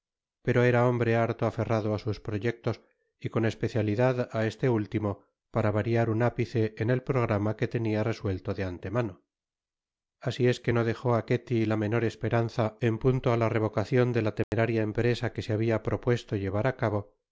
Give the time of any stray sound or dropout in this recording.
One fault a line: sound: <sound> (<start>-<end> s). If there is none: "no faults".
sound: dropout (14.4-14.5 s)